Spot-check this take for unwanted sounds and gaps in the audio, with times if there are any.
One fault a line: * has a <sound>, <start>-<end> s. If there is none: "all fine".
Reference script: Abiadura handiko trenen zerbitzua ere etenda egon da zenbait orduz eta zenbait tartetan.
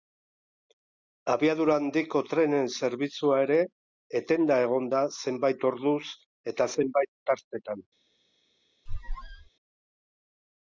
* has a squeak, 8.9-9.5 s